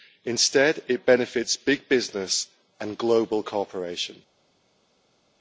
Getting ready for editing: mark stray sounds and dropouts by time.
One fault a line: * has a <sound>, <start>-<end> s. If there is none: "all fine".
all fine